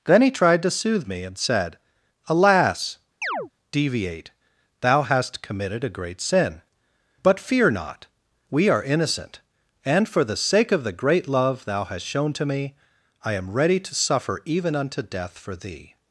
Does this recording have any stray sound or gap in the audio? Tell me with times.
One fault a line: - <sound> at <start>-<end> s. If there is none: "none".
- chirp at 3.2-3.5 s